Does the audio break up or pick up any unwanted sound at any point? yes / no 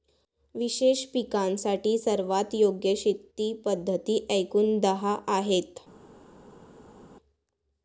no